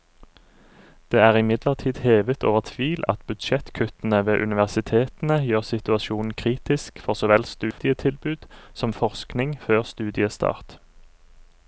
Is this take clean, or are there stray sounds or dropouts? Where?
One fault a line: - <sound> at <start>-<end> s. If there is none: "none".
- dropout at 7.7-7.8 s